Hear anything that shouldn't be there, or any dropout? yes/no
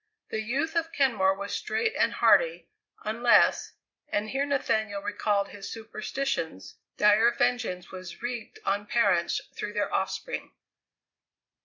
no